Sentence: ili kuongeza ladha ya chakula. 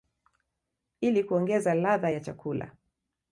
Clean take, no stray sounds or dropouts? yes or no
yes